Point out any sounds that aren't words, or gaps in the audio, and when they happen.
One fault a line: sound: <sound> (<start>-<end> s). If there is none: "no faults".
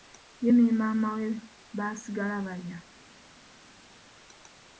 no faults